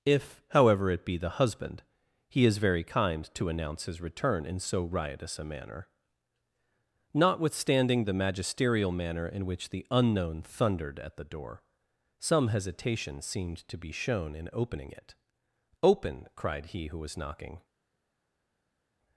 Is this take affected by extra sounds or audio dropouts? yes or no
no